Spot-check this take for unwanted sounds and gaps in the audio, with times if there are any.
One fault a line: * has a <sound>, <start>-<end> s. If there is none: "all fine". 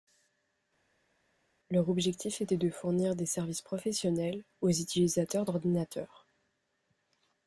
all fine